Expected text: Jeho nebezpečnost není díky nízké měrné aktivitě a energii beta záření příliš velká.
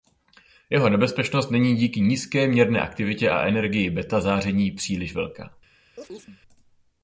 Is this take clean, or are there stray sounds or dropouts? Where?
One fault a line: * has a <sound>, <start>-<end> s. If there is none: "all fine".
* has a chirp, 6.0-6.4 s